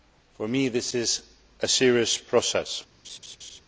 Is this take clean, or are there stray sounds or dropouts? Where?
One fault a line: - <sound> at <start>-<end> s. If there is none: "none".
- laugh at 3.0-3.6 s